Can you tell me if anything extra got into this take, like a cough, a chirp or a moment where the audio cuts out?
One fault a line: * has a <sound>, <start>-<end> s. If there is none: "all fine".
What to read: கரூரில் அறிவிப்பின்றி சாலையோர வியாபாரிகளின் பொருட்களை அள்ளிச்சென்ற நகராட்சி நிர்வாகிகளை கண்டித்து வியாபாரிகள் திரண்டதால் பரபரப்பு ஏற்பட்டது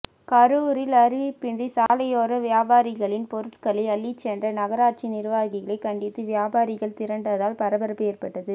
* has a dropout, 1.9-1.9 s